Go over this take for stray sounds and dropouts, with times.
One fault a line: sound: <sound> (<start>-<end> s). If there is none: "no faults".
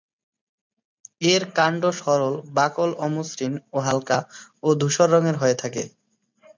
no faults